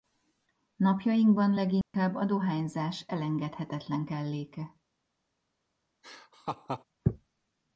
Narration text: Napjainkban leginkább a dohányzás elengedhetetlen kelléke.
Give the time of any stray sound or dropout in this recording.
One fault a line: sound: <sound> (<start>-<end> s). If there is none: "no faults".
sound: dropout (1.8-1.9 s)
sound: laugh (6.0-6.8 s)